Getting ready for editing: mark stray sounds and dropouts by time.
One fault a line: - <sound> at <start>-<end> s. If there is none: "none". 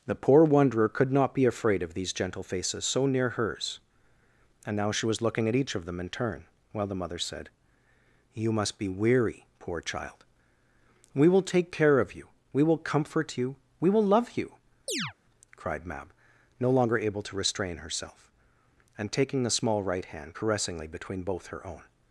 - chirp at 14.9-15.1 s